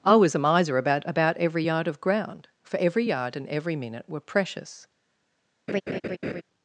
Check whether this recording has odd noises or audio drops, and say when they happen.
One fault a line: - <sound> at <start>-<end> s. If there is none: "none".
- laugh at 5.7-6.4 s